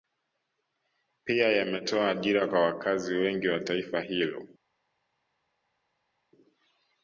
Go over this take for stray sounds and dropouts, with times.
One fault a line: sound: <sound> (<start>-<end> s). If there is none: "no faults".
no faults